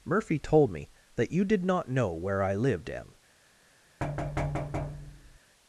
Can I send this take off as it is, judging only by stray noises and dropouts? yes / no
no